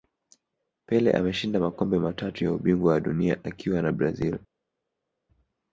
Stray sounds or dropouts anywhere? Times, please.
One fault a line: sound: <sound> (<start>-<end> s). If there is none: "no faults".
no faults